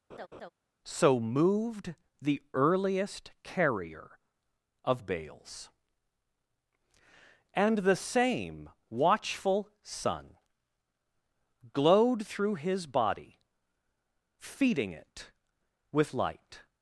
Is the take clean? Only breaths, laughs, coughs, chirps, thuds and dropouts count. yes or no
no